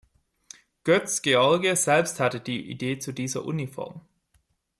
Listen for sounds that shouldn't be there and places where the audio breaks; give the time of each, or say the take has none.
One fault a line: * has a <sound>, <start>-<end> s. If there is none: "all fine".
all fine